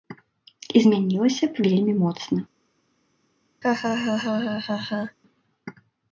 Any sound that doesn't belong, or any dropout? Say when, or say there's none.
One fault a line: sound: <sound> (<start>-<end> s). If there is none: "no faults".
sound: laugh (3.6-5.2 s)